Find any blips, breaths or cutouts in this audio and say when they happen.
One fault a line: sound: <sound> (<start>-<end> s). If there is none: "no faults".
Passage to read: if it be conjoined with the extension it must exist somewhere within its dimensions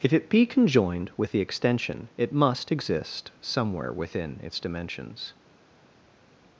no faults